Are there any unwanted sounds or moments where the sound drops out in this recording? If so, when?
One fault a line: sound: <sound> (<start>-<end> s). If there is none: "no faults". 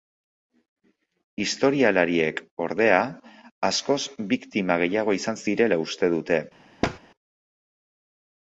sound: thud (6.8-7.0 s)